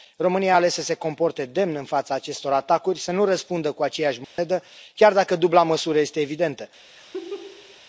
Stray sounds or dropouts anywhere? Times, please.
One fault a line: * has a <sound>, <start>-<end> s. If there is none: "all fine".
* has a dropout, 4.2-4.4 s
* has a laugh, 7.0-7.8 s